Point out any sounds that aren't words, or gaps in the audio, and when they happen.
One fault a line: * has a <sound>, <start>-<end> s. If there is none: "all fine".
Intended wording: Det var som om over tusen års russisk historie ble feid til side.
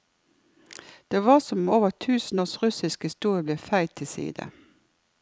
all fine